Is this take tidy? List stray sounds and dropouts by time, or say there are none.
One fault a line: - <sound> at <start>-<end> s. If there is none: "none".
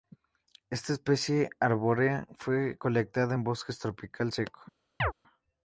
- chirp at 5.0-5.1 s